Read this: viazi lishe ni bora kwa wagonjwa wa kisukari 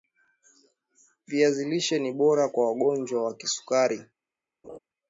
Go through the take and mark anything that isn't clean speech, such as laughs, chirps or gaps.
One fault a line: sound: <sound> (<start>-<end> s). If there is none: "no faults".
sound: laugh (4.6-4.8 s)